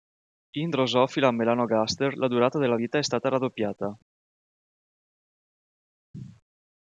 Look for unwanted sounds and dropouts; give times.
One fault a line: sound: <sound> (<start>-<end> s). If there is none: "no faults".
no faults